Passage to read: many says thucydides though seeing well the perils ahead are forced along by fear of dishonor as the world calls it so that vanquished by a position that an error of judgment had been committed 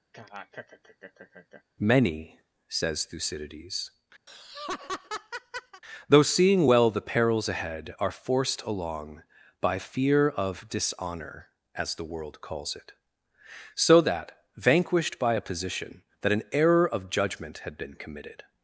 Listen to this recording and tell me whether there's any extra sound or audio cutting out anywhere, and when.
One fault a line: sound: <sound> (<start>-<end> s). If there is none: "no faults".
sound: laugh (0.1-1.6 s)
sound: laugh (4.3-5.8 s)